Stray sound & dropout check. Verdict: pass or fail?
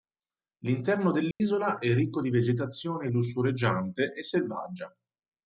fail